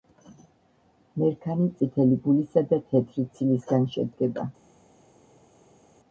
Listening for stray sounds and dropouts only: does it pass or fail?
pass